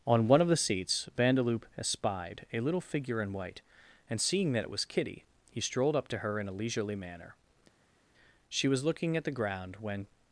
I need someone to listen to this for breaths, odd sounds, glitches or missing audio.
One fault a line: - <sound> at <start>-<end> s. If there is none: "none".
none